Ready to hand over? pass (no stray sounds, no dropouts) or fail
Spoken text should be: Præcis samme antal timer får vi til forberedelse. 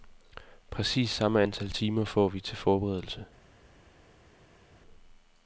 pass